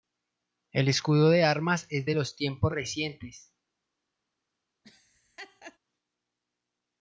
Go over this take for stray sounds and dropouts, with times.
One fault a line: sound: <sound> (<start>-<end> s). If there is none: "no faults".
sound: laugh (4.8-5.8 s)